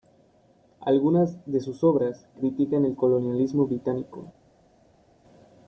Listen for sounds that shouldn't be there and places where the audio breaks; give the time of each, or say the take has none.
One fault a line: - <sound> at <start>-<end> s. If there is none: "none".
none